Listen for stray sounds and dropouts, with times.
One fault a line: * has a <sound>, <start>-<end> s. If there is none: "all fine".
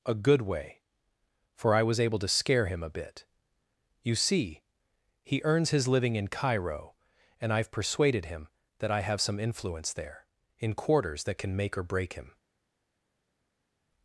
all fine